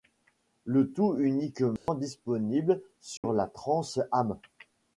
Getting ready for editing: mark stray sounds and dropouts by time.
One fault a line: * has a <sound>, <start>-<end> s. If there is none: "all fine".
* has a dropout, 1.8-1.9 s
* has a dropout, 3.2-3.2 s